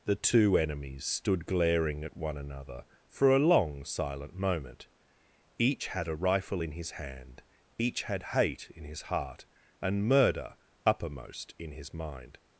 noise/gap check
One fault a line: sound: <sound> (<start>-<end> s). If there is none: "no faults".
no faults